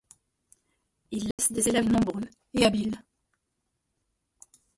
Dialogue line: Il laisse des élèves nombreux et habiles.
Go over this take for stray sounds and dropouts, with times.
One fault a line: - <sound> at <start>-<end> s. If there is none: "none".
- dropout at 1.3-1.4 s